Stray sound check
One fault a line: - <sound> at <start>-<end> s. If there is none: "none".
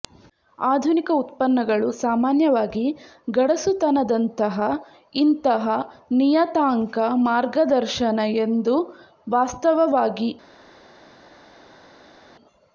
none